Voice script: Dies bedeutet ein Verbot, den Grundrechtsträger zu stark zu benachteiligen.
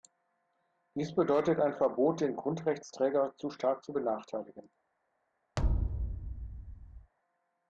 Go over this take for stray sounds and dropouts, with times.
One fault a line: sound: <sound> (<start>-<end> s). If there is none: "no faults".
sound: thud (5.6-7.1 s)